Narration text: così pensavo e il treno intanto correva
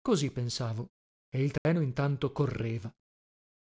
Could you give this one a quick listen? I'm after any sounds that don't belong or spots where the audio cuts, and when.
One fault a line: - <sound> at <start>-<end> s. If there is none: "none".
- dropout at 1.6-1.7 s